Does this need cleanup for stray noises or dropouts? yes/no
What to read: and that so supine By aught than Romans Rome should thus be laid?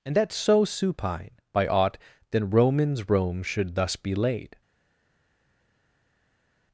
no